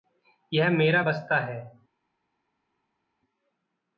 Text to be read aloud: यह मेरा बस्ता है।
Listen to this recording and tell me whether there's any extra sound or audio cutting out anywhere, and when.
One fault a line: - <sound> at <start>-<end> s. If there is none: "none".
none